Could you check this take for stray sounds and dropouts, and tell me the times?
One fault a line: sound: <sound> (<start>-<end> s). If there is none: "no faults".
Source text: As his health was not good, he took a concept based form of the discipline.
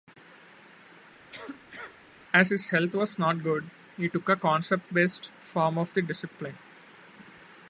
sound: cough (1.3-2.0 s)